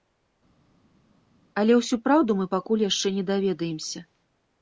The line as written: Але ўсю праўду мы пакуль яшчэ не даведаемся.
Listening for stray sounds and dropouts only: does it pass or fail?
pass